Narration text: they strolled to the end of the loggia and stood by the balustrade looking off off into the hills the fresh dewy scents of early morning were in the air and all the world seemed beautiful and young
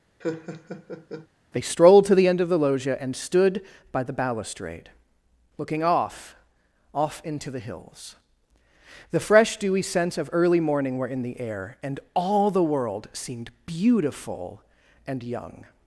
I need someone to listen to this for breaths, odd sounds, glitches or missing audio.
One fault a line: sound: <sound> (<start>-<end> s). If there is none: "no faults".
sound: laugh (0.2-1.3 s)